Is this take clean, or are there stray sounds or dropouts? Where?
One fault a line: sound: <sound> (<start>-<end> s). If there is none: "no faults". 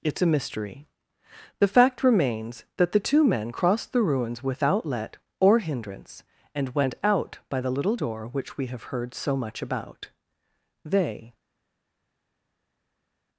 no faults